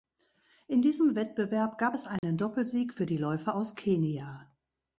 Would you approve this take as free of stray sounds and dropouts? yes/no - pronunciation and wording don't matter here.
no